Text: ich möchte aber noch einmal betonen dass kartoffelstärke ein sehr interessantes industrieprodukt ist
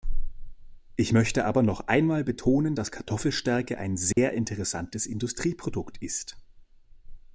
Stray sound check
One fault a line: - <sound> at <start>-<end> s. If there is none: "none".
- dropout at 4.1-4.2 s